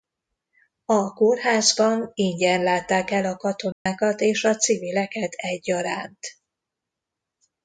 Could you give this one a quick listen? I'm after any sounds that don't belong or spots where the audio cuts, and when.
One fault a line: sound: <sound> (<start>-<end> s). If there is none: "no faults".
sound: dropout (3.7-3.9 s)